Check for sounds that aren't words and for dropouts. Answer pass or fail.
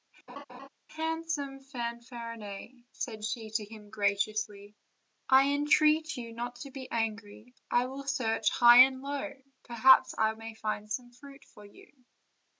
fail